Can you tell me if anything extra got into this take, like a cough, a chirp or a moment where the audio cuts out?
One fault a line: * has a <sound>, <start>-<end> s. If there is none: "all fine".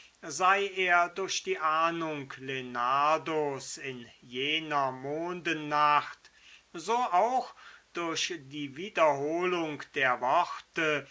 all fine